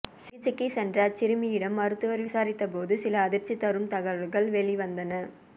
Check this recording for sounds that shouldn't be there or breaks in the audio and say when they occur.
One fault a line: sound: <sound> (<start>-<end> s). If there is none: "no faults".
no faults